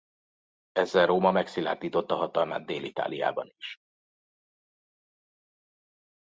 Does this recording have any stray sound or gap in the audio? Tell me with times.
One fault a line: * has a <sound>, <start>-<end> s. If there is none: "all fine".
all fine